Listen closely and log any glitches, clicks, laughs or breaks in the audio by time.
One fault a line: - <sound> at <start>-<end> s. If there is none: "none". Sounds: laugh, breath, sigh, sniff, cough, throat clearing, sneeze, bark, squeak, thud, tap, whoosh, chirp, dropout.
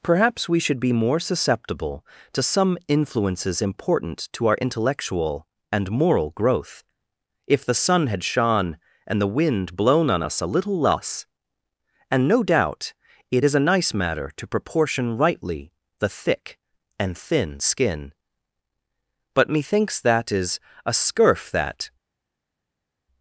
none